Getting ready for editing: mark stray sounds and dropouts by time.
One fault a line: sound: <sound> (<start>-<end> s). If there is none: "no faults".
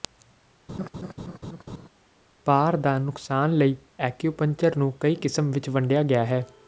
sound: laugh (0.7-1.9 s)